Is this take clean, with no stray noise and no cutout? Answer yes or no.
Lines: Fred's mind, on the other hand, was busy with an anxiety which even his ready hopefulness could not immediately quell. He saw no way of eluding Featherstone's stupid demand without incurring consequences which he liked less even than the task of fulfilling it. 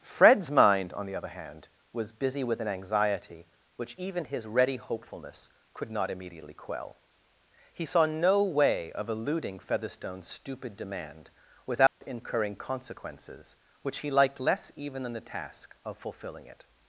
no